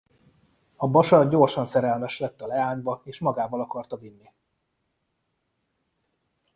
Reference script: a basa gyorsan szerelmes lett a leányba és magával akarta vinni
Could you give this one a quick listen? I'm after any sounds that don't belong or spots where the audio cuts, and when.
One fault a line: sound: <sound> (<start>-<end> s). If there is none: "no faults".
no faults